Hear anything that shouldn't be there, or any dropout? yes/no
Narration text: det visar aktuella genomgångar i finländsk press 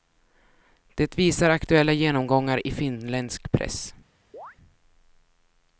yes